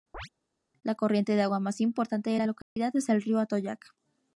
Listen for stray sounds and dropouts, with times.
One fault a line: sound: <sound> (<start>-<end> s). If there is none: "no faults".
sound: chirp (0.1-0.3 s)
sound: dropout (2.6-2.8 s)